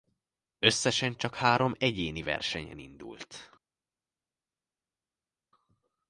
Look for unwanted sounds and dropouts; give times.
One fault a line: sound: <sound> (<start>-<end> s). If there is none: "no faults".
no faults